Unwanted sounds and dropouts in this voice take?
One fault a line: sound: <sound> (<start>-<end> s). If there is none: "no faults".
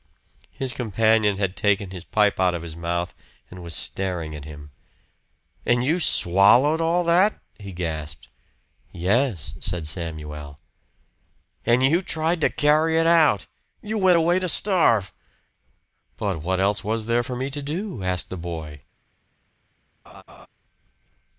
sound: laugh (20.1-20.5 s)